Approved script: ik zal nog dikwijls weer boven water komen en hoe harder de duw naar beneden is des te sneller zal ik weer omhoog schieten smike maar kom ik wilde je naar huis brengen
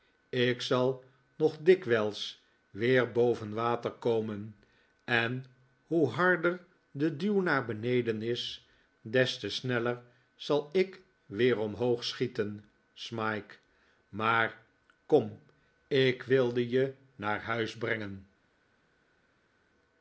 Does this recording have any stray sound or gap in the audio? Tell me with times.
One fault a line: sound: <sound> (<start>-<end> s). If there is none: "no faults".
no faults